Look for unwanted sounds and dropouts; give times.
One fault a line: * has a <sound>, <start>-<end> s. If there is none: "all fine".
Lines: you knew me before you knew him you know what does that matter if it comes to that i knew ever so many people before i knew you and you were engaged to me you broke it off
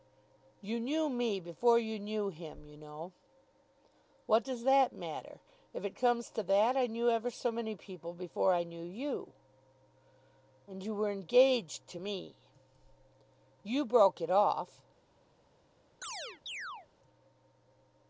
* has a chirp, 16.0-16.9 s